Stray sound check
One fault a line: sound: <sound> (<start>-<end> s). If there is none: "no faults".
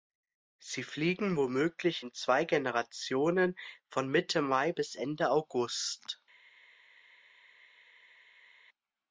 no faults